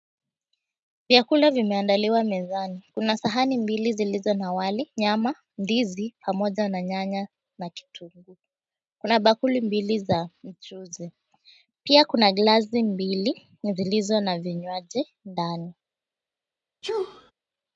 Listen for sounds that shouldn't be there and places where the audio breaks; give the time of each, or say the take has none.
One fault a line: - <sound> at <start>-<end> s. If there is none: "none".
- sneeze at 16.8-17.3 s